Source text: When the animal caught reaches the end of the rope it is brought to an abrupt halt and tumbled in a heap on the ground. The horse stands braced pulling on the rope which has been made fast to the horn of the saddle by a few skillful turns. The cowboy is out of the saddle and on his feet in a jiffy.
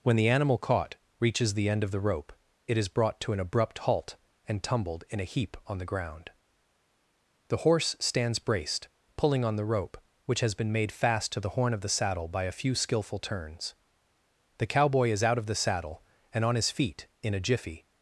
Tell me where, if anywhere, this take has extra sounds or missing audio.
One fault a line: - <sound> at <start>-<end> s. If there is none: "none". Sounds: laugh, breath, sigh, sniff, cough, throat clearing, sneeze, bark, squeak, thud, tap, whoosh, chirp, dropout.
none